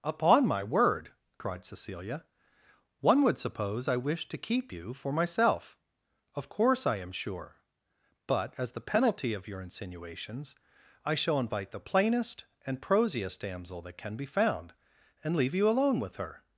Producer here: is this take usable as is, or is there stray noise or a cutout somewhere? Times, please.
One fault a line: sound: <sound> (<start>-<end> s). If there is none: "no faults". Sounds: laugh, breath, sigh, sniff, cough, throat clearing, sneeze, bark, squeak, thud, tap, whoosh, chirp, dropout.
no faults